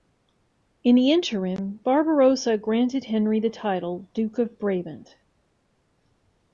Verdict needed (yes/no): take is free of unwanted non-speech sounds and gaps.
yes